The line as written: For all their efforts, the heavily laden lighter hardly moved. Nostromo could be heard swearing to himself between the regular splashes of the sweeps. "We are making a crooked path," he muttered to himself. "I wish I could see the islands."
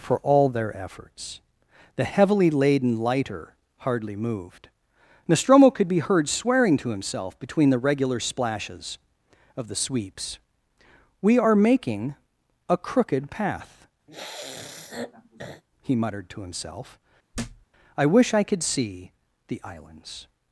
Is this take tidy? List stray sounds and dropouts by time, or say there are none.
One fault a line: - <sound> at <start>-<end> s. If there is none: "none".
- sniff at 14.1-15.6 s
- thud at 17.3-17.7 s